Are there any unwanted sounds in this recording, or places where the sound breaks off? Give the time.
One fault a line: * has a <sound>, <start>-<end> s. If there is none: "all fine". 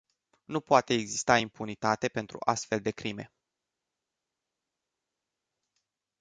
all fine